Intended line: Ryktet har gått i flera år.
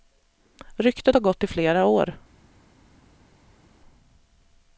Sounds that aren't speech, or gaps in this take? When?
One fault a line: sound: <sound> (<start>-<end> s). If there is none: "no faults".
no faults